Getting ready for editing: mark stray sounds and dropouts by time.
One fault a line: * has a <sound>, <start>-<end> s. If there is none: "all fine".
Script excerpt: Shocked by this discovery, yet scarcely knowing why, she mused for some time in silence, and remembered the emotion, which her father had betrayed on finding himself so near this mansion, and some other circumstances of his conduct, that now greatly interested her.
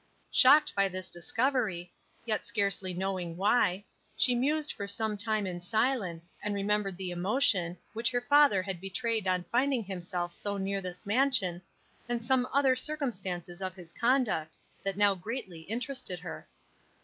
all fine